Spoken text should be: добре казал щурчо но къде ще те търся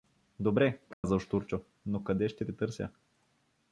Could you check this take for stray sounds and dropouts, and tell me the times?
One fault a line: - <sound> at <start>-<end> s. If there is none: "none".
- dropout at 0.9-1.0 s